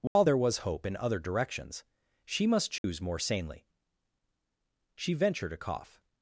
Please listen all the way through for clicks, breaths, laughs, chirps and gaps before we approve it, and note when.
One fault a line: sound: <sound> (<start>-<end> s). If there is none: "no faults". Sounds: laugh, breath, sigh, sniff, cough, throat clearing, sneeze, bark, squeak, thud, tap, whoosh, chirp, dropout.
sound: dropout (0.1-0.2 s)
sound: dropout (2.8-2.8 s)